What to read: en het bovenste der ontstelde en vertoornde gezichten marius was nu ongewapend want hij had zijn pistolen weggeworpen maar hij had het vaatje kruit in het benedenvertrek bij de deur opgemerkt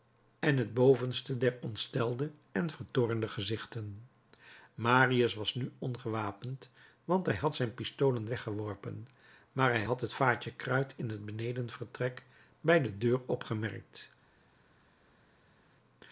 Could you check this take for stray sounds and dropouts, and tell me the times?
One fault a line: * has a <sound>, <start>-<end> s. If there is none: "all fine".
all fine